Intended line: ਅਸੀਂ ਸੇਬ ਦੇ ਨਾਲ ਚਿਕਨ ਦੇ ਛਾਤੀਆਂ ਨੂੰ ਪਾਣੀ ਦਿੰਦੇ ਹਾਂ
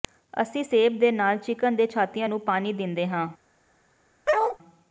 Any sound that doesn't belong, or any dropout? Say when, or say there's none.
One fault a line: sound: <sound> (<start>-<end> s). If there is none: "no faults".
sound: bark (4.3-4.6 s)